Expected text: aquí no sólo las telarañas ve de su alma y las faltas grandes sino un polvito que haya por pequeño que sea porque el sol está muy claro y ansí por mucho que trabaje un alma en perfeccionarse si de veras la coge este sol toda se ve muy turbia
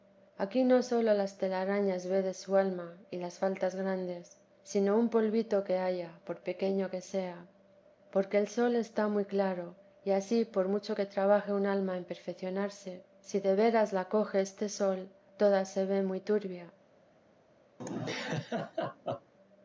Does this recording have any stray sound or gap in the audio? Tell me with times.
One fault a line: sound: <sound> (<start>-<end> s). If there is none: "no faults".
sound: laugh (17.8-19.3 s)